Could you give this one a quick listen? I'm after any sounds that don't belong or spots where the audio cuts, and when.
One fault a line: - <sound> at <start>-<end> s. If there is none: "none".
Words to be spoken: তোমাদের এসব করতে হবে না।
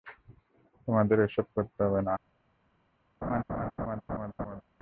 - laugh at 3.2-4.6 s